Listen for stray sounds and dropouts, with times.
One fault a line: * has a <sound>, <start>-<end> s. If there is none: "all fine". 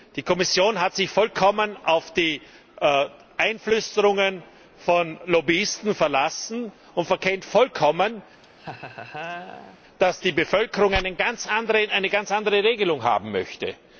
* has a laugh, 8.4-9.8 s